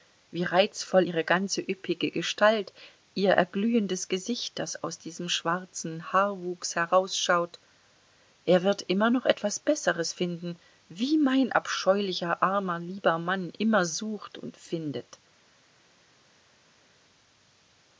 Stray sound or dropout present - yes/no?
no